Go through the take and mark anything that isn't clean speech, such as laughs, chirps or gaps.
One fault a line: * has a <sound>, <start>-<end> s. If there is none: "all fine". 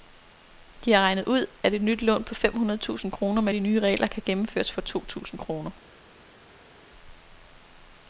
all fine